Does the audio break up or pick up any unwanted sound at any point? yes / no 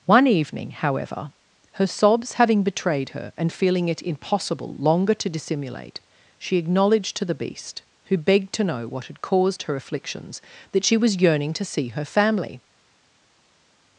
no